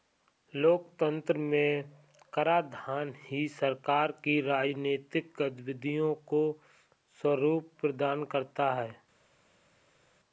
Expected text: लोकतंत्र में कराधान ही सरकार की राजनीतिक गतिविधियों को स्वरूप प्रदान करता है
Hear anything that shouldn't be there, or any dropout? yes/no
no